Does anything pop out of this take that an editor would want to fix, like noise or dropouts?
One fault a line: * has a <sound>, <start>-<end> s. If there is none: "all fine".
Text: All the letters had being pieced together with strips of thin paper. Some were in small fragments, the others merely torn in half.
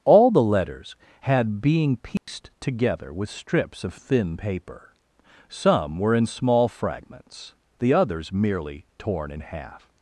* has a dropout, 2.2-2.3 s